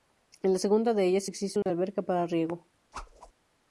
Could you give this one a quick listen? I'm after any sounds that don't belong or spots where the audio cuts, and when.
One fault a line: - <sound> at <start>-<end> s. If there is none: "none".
- dropout at 1.6-1.7 s
- whoosh at 2.9-3.3 s